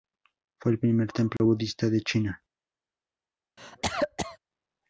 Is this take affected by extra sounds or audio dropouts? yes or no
yes